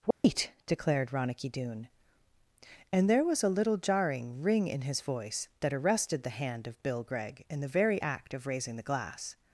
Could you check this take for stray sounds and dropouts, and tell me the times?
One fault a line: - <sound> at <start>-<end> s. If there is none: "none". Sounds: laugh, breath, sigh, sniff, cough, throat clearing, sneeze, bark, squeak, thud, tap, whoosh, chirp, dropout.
- dropout at 0.1-0.2 s